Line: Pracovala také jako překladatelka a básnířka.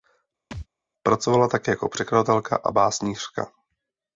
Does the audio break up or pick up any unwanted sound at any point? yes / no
yes